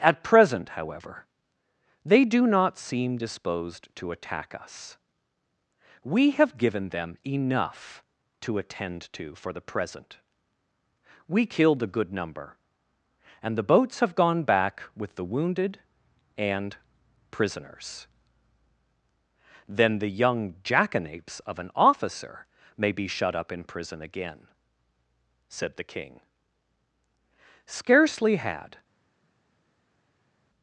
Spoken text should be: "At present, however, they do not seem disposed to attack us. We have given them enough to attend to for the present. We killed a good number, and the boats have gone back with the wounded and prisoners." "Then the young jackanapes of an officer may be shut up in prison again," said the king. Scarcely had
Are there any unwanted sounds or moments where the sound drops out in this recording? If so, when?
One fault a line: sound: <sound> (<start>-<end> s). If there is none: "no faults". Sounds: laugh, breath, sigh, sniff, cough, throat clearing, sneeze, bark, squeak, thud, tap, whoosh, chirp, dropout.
no faults